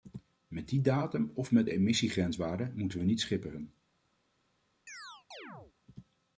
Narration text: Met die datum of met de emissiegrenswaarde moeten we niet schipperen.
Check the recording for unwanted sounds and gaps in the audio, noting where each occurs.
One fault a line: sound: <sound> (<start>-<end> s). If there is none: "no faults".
sound: chirp (4.9-5.7 s)